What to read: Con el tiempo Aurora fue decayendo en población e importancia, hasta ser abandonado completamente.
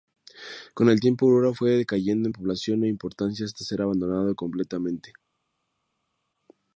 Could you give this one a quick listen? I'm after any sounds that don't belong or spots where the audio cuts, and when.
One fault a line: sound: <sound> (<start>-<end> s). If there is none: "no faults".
no faults